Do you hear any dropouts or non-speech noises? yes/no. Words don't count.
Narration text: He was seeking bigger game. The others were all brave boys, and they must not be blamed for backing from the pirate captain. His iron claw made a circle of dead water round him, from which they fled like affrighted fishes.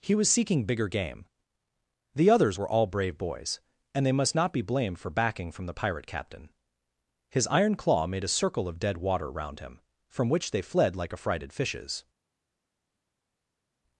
no